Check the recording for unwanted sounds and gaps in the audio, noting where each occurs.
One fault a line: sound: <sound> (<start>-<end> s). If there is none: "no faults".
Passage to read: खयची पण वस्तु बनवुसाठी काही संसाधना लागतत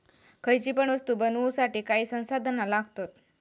no faults